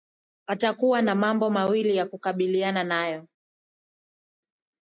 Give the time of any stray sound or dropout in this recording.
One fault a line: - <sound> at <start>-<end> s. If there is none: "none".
none